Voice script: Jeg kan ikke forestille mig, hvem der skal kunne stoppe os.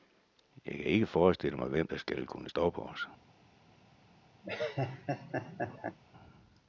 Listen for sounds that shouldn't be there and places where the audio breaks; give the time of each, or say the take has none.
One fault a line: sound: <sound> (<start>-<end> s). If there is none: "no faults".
sound: laugh (4.4-6.0 s)